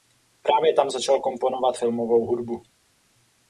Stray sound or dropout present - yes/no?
no